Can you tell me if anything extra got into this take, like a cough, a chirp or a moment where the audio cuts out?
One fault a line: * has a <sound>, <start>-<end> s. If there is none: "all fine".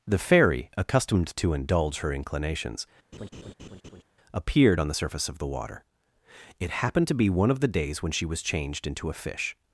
* has a laugh, 3.1-4.0 s